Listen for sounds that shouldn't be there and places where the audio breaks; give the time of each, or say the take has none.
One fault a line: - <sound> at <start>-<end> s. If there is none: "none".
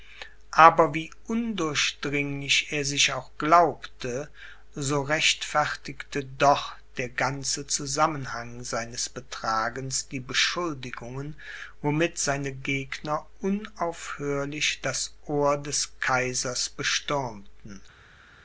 none